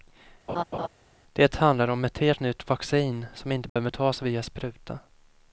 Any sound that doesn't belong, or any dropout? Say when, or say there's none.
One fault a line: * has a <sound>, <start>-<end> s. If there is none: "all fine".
* has a laugh, 0.5-0.9 s
* has a dropout, 3.7-3.8 s